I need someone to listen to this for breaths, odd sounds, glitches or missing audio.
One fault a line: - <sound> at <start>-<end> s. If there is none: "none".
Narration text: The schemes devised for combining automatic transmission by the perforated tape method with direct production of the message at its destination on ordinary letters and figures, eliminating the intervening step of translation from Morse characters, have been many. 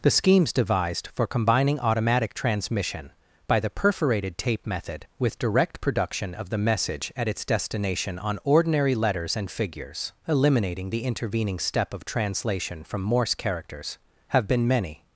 none